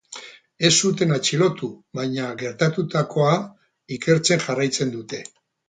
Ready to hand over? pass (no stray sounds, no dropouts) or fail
pass